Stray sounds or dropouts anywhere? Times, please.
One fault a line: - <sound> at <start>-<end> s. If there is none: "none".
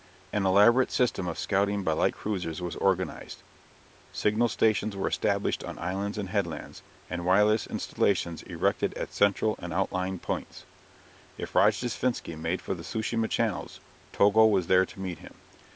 none